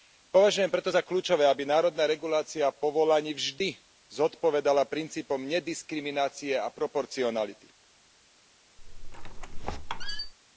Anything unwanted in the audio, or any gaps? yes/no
yes